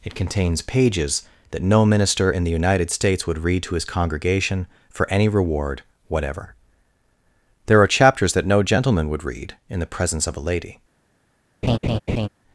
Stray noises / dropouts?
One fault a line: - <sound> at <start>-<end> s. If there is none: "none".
- laugh at 11.6-12.3 s